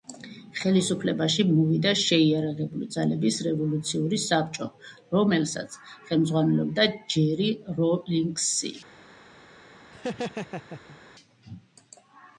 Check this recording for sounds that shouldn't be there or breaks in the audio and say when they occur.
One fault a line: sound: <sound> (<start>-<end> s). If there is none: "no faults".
sound: laugh (9.9-11.0 s)